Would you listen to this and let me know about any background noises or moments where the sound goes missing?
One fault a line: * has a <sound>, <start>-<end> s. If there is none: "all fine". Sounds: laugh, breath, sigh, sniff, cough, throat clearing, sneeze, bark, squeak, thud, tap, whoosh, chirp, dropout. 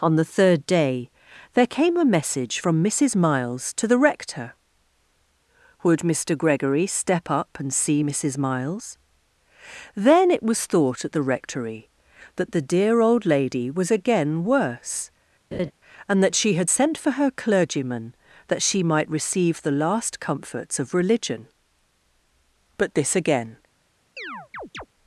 * has a laugh, 15.5-15.7 s
* has a chirp, 24.2-24.9 s